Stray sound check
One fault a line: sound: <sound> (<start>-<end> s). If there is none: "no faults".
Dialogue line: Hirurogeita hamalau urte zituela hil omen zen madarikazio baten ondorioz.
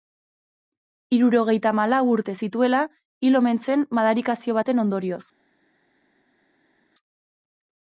no faults